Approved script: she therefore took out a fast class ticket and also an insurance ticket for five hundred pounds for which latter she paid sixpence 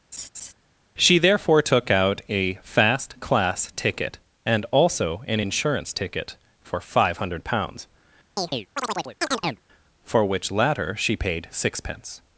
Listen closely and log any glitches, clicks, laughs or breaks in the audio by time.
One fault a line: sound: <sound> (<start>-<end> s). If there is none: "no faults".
sound: laugh (0.1-0.5 s)
sound: chirp (8.4-9.6 s)